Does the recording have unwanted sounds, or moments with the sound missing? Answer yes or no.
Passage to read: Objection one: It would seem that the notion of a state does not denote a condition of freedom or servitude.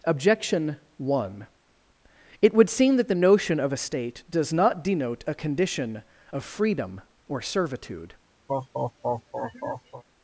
yes